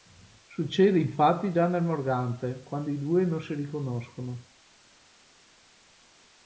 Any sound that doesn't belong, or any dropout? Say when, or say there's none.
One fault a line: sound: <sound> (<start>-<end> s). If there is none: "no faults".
no faults